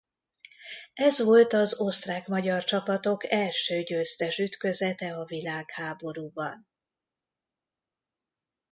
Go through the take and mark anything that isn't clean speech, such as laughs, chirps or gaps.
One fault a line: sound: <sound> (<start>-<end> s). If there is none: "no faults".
no faults